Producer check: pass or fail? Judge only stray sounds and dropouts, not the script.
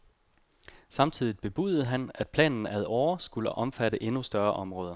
pass